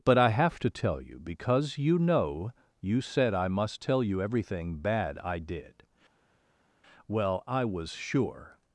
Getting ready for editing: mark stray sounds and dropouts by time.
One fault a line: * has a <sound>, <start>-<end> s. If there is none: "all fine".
all fine